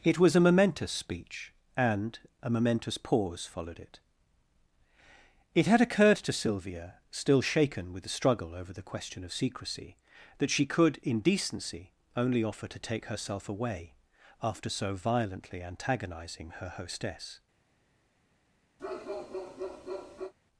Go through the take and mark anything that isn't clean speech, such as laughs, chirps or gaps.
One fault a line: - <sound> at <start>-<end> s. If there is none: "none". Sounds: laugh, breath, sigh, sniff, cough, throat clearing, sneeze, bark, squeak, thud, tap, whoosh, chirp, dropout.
- bark at 18.8-20.3 s